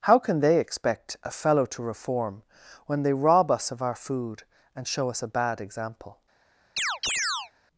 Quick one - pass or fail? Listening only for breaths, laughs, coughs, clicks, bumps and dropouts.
fail